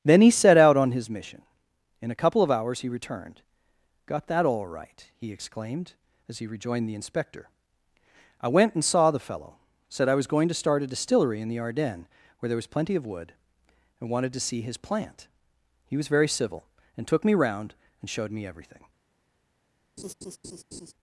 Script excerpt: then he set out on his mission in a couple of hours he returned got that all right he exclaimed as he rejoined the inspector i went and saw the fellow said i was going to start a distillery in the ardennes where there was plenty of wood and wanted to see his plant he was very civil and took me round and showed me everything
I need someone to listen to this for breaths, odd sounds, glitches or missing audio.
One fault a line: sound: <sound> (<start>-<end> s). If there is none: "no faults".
sound: laugh (20.0-20.9 s)